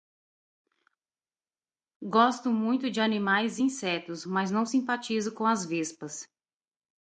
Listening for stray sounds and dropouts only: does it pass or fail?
pass